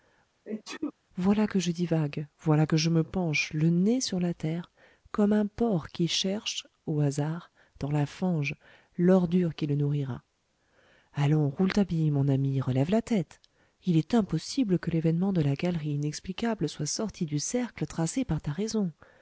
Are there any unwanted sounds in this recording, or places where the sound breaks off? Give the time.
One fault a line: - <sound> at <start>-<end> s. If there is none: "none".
- sneeze at 0.5-0.9 s